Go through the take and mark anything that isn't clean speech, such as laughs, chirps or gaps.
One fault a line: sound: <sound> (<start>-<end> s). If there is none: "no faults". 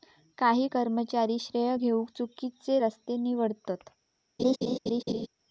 sound: laugh (4.4-5.3 s)